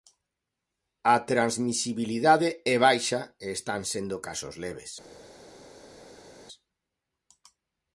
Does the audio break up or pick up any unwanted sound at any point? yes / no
no